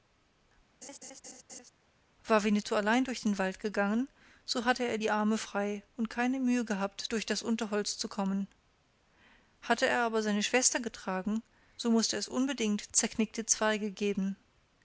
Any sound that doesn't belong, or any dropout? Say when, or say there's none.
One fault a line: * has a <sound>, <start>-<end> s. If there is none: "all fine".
* has a laugh, 0.8-1.7 s